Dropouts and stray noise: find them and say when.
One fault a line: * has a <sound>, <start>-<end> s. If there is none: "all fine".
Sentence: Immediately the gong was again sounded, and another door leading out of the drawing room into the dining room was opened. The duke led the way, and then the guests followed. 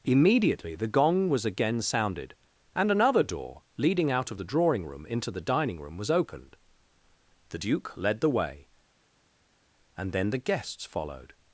all fine